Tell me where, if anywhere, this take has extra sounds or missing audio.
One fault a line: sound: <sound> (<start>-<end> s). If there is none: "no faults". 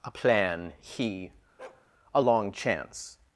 sound: bark (1.6-1.9 s)